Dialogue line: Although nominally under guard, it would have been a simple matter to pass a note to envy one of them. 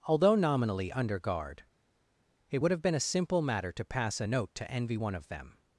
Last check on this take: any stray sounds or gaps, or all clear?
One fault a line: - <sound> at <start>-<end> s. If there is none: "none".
none